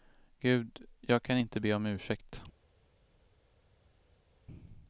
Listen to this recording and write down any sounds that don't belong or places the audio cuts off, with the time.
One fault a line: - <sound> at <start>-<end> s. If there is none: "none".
none